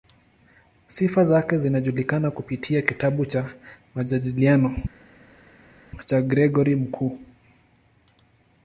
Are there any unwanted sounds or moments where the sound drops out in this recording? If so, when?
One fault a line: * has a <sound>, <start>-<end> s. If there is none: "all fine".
all fine